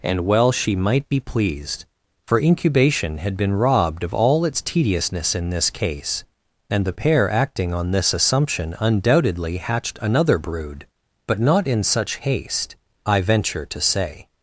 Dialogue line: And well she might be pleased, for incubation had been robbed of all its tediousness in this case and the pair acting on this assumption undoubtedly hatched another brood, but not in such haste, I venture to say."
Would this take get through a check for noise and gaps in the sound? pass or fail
pass